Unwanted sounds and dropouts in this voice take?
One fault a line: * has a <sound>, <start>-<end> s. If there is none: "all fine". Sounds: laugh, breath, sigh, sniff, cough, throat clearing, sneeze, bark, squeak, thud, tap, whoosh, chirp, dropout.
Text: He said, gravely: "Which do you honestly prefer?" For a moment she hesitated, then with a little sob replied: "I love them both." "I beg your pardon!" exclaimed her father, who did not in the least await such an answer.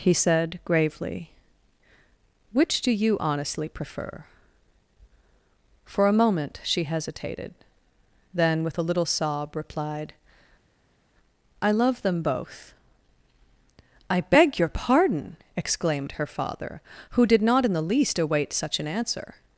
all fine